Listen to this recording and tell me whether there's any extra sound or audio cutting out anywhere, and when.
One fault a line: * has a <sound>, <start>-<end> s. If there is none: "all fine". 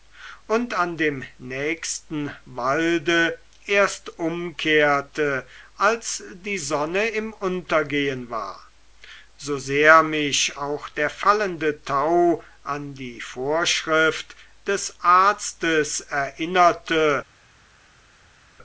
all fine